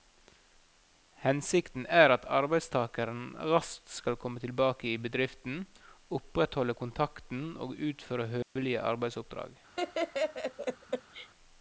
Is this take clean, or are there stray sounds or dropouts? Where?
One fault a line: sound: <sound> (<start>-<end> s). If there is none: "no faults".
sound: dropout (8.4-8.6 s)
sound: laugh (9.8-11.3 s)